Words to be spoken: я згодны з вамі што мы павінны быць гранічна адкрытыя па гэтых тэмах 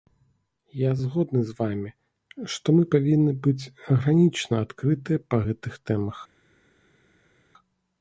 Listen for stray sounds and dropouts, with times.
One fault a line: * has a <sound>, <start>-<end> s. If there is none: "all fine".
all fine